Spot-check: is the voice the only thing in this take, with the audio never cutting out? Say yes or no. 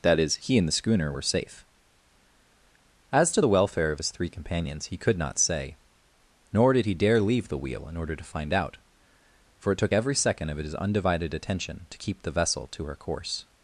yes